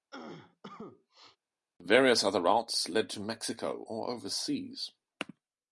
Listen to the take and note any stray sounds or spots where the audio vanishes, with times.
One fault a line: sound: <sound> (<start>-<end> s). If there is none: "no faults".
sound: cough (0.1-1.4 s)